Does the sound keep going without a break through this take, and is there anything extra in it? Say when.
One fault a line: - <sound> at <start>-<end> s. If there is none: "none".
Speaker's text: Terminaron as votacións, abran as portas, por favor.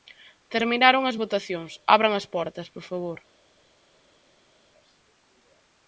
none